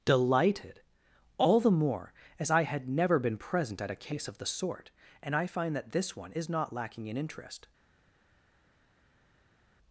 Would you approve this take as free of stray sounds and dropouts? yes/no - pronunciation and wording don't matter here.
yes